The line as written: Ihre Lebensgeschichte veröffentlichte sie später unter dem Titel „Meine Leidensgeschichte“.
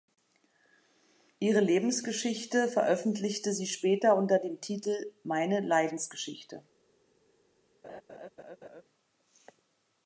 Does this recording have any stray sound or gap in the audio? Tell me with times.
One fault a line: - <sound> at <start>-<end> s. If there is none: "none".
- laugh at 7.8-8.8 s